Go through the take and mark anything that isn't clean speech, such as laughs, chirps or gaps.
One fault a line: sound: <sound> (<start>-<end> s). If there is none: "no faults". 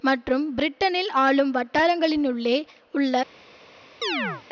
sound: chirp (4.0-4.4 s)